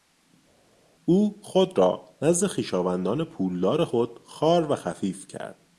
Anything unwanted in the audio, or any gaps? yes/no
no